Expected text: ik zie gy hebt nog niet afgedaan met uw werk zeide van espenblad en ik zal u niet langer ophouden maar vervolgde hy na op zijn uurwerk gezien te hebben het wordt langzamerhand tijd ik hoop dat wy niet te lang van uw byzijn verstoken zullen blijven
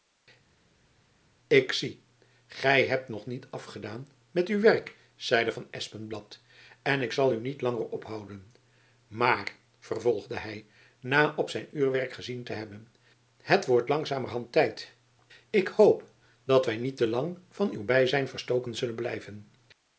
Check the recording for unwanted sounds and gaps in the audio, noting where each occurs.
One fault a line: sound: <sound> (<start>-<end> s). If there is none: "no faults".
no faults